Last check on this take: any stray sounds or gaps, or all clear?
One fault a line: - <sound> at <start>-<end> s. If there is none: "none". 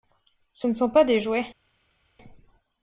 none